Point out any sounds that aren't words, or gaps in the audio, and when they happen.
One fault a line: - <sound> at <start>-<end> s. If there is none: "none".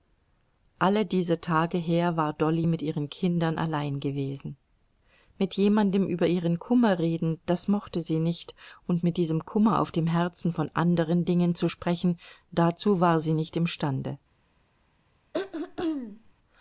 - throat clearing at 15.3-16.3 s